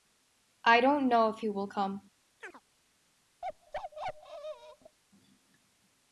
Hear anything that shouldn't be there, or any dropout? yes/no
yes